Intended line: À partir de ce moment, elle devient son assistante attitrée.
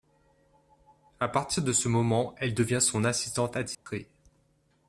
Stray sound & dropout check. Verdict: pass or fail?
fail